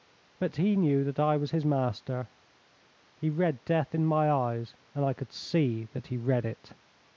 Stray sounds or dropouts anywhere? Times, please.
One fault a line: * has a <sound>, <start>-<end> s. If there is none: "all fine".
all fine